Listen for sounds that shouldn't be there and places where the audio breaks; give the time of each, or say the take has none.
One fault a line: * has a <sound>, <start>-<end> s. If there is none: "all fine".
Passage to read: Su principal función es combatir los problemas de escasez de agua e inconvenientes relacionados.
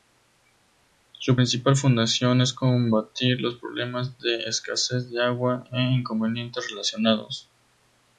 all fine